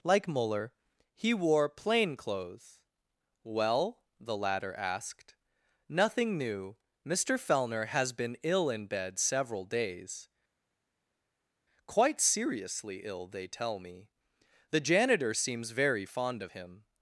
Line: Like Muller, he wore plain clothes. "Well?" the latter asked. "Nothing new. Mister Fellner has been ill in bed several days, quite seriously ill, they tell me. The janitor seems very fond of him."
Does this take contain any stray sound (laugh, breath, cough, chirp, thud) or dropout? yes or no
no